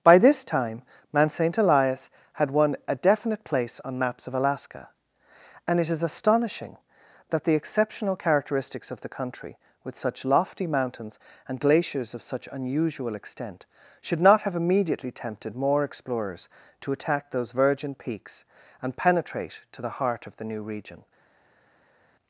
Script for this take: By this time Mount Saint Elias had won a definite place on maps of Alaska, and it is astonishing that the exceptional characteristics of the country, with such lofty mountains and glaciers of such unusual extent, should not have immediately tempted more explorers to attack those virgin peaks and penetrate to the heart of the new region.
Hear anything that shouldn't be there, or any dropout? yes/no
no